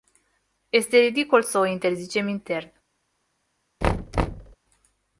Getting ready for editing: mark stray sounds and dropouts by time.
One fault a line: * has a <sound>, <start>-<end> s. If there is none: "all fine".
* has a thud, 3.8-4.6 s